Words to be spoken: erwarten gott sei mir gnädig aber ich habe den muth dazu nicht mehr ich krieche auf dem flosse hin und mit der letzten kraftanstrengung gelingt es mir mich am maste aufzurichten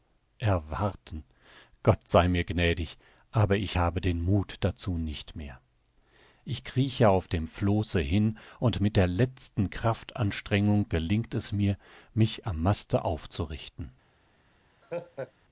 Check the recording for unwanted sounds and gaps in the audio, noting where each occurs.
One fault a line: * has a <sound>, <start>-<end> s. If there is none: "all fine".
* has a laugh, 14.8-15.3 s